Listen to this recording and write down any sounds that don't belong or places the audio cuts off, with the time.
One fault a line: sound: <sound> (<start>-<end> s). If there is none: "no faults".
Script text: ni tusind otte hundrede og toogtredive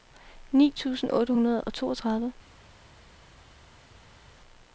no faults